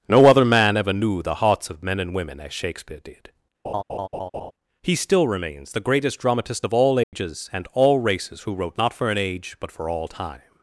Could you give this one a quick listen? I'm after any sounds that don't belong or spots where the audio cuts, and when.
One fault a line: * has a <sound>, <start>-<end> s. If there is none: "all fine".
* has a laugh, 3.6-4.5 s
* has a dropout, 7.0-7.1 s